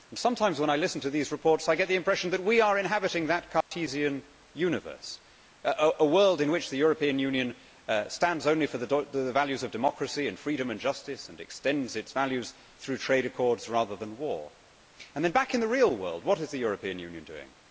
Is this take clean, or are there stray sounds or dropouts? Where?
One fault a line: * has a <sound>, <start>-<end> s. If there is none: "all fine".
* has a dropout, 3.6-3.7 s